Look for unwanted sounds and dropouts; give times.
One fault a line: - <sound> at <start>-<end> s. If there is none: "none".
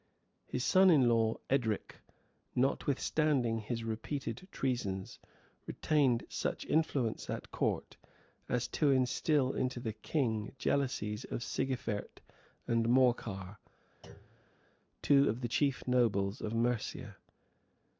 - thud at 14.0-14.5 s